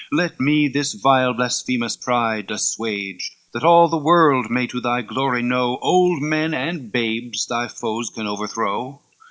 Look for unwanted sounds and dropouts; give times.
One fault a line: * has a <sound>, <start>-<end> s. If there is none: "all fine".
all fine